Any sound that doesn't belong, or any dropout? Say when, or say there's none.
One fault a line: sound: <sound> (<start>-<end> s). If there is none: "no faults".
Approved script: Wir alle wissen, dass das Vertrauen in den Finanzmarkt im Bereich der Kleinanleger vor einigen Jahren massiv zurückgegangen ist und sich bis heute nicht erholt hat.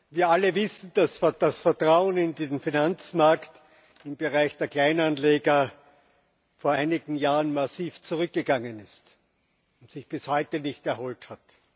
no faults